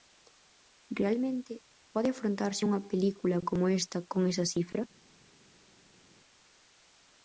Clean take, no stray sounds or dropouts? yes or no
yes